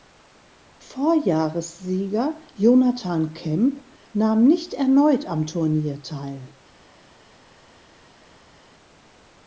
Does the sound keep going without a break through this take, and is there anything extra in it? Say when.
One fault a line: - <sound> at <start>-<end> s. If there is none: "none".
none